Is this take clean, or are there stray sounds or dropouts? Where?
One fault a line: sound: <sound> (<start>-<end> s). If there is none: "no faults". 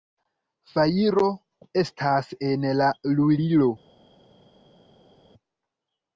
no faults